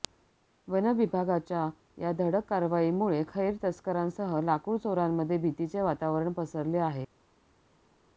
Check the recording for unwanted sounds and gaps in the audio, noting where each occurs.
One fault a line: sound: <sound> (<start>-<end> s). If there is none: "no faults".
no faults